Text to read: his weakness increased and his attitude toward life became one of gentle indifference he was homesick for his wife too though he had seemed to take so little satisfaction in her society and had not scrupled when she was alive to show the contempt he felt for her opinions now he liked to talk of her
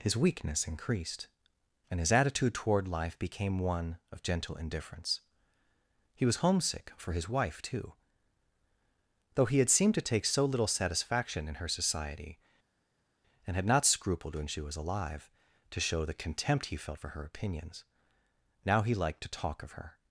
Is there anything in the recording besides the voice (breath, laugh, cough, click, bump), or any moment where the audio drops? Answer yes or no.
no